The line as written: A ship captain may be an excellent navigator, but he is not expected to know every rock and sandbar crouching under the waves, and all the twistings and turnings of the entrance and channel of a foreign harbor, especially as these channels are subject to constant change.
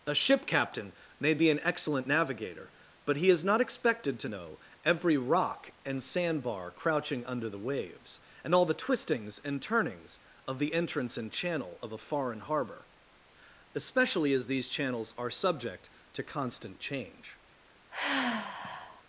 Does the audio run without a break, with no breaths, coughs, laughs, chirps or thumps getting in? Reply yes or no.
no